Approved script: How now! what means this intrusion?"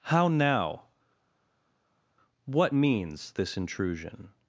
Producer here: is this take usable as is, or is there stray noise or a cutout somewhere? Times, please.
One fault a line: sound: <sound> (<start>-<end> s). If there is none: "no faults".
no faults